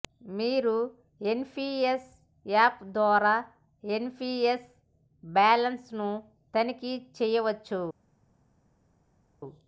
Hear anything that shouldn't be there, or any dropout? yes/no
no